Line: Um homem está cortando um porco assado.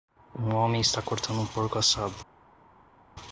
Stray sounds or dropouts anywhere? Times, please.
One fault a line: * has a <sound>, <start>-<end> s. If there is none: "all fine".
all fine